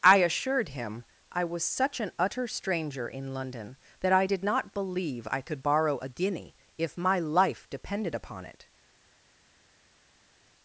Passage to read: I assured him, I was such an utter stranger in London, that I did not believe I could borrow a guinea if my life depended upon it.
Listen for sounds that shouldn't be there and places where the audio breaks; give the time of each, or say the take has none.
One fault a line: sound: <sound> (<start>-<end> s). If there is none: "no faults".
no faults